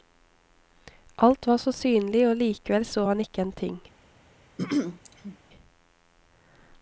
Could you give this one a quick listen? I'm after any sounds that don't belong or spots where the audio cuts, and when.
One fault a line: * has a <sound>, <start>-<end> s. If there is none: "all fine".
* has a throat clearing, 4.6-5.4 s